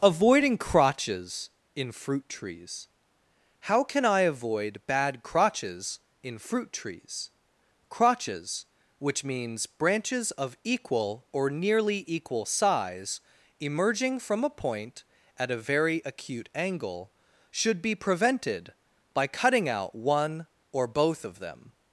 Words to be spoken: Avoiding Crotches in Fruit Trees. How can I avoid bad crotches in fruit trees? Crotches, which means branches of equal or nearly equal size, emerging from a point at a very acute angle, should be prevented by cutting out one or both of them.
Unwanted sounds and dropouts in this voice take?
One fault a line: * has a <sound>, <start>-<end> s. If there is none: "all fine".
all fine